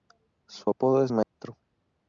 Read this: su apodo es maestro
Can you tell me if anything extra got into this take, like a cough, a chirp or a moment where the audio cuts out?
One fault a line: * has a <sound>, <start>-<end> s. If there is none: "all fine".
* has a dropout, 1.2-1.4 s